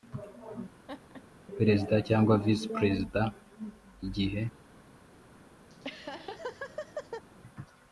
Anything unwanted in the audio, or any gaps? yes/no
yes